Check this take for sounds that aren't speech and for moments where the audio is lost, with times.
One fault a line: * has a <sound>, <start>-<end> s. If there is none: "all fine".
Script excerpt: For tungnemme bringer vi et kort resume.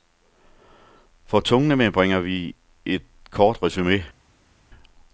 all fine